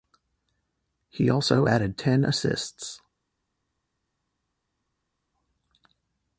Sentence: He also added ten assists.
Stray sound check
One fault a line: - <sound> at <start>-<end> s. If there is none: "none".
none